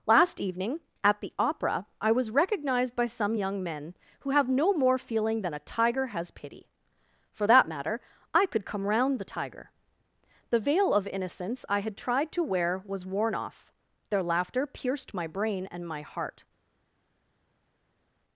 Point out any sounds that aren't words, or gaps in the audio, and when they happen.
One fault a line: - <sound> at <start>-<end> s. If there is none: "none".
none